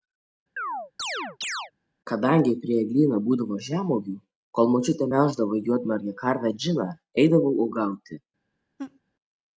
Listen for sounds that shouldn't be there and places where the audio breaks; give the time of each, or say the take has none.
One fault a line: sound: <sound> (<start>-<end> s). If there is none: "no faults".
sound: chirp (0.6-1.7 s)
sound: laugh (8.8-9.0 s)